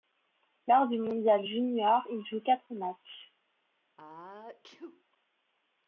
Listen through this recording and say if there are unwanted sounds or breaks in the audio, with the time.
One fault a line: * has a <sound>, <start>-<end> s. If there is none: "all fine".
* has a sneeze, 4.0-5.0 s